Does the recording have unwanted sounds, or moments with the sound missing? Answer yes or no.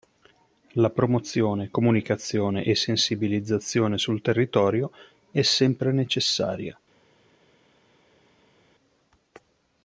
no